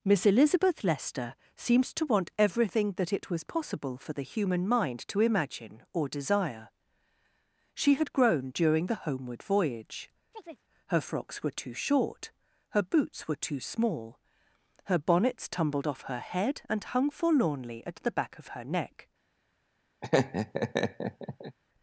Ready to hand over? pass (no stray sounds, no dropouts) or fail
fail